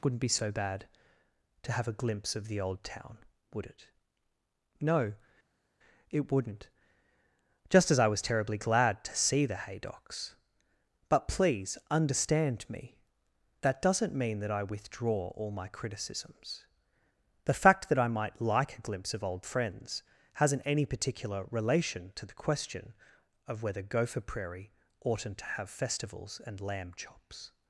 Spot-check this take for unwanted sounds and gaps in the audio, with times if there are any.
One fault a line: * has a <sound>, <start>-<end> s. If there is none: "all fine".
all fine